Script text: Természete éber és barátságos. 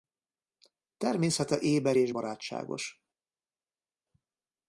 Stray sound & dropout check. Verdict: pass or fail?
pass